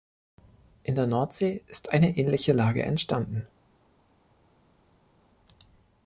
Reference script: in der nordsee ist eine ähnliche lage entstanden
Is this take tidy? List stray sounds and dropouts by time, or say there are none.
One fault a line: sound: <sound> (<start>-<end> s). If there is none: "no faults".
no faults